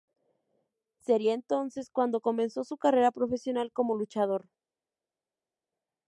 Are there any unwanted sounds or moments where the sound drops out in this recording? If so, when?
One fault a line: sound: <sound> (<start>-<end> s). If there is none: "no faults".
no faults